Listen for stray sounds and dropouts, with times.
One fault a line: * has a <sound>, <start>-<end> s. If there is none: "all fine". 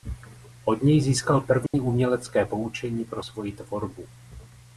* has a dropout, 1.7-1.7 s